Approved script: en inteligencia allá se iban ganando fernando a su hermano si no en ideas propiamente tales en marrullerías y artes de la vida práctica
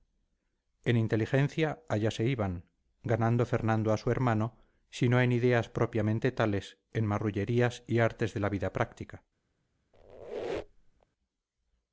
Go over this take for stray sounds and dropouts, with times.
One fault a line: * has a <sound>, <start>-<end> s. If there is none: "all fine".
* has a squeak, 9.9-11.1 s